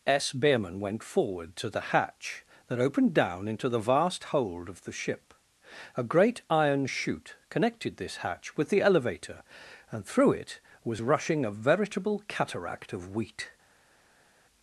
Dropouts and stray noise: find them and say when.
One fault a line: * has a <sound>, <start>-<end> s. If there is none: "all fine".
all fine